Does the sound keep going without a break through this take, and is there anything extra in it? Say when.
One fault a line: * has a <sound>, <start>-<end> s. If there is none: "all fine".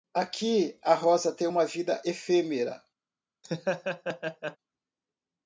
* has a laugh, 3.4-4.6 s